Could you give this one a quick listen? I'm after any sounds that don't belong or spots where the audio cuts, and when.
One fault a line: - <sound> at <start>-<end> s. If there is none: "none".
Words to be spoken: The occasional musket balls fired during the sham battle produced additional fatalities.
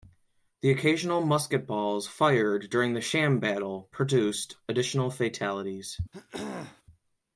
- throat clearing at 6.1-6.8 s